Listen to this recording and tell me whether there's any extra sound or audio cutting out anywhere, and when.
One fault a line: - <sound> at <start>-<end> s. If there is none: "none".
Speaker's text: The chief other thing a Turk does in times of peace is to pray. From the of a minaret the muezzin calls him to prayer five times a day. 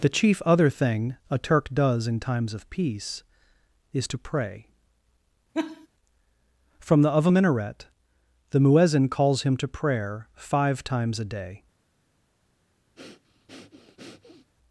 - laugh at 5.5-5.9 s
- breath at 13.0-14.5 s